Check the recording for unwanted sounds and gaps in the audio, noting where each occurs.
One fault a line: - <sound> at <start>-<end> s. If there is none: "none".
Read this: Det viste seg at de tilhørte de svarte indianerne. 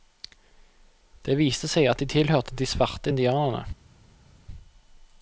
none